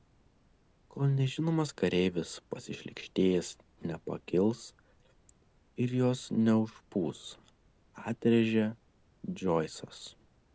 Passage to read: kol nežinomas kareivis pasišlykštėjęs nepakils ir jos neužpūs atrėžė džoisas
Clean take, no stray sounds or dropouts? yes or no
yes